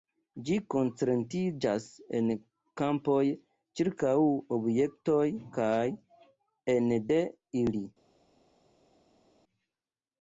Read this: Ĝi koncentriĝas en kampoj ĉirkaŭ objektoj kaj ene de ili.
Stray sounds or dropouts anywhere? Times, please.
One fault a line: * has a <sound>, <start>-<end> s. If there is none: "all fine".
all fine